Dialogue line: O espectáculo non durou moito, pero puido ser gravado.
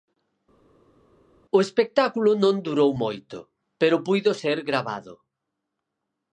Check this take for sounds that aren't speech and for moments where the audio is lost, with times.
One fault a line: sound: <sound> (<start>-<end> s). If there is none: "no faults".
no faults